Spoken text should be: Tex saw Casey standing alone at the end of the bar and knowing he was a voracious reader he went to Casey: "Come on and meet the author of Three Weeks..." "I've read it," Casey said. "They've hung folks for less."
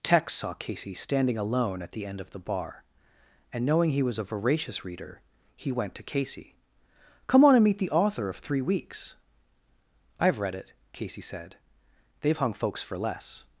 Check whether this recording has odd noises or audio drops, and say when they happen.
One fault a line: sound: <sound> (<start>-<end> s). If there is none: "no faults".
no faults